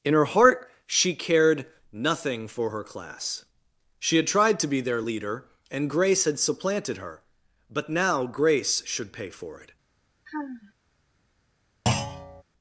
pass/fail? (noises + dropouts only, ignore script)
fail